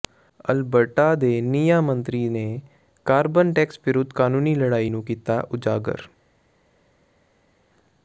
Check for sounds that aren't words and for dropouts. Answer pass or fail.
pass